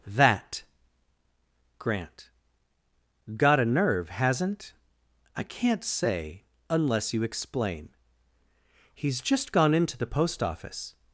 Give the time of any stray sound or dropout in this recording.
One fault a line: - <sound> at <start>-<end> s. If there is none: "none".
none